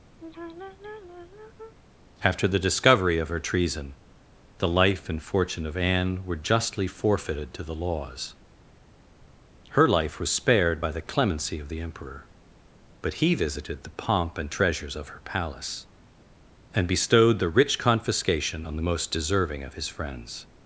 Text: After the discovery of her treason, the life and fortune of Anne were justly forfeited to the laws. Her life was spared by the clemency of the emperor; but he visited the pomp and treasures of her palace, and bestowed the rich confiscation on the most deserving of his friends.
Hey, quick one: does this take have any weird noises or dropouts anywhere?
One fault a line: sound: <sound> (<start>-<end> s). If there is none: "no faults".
sound: sigh (0.2-1.8 s)